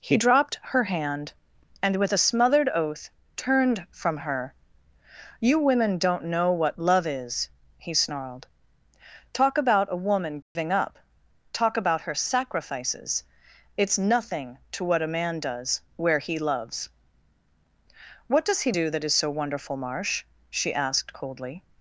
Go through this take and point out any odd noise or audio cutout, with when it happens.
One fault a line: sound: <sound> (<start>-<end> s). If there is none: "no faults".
sound: dropout (10.4-10.6 s)